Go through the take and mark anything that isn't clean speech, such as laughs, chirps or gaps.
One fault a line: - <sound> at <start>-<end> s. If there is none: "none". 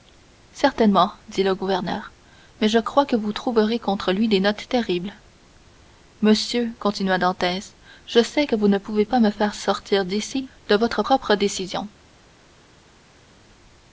none